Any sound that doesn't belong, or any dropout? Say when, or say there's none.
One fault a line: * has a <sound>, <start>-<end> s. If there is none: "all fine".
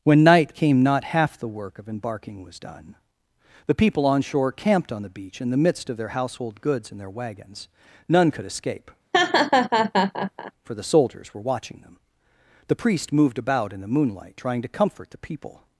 * has a laugh, 9.1-10.5 s